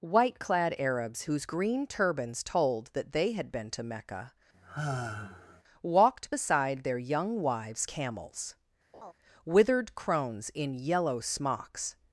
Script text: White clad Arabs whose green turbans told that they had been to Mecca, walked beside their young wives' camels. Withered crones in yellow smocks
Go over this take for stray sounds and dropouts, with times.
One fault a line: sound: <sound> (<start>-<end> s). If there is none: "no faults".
sound: sigh (4.5-5.6 s)
sound: laugh (8.9-9.1 s)